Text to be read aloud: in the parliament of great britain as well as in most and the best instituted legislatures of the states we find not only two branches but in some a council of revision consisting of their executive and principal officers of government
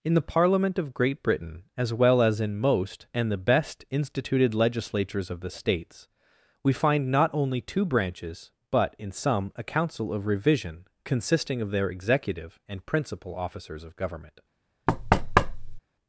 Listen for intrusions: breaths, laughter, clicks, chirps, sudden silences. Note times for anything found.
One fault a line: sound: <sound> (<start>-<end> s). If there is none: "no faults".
sound: thud (14.9-15.8 s)